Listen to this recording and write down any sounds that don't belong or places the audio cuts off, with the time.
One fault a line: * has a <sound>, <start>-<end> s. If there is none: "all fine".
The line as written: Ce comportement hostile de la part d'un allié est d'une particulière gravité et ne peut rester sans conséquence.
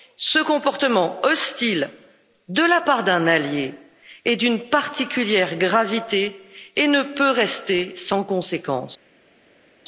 all fine